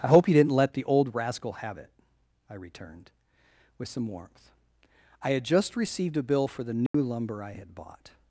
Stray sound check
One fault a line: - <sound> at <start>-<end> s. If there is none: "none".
- dropout at 6.9-6.9 s